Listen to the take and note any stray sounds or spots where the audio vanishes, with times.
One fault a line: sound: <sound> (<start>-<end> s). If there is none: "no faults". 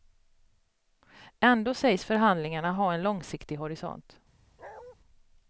sound: bark (4.6-5.0 s)